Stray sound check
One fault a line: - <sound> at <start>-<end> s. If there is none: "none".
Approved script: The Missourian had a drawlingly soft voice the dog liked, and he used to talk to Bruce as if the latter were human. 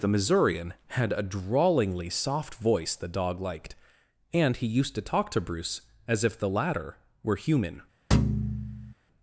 - thud at 8.1-8.9 s